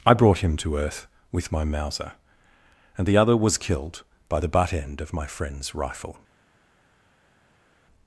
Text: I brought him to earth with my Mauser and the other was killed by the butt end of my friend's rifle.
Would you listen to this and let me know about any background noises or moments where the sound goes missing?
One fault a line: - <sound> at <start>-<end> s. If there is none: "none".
none